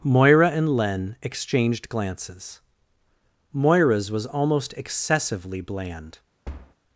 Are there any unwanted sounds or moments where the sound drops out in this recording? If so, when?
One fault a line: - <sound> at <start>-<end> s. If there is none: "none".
- thud at 6.4-6.7 s